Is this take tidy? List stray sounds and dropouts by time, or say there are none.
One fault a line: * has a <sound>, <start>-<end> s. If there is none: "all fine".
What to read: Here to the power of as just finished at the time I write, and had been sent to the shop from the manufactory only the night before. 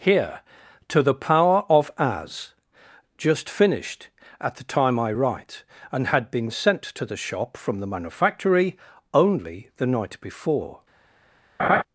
* has a laugh, 11.6-11.8 s